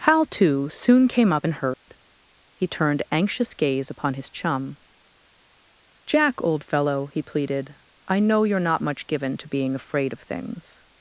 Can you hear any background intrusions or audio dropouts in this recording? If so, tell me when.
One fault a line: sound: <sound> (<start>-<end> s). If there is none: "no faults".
sound: dropout (1.7-1.9 s)